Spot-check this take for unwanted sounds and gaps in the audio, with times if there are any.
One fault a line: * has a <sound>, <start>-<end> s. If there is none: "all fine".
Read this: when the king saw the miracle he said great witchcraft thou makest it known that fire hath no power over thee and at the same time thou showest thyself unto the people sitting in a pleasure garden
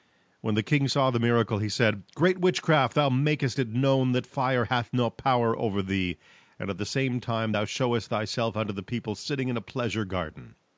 all fine